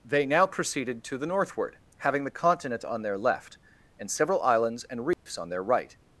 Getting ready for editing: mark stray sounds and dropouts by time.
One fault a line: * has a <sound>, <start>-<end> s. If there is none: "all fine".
* has a dropout, 5.1-5.3 s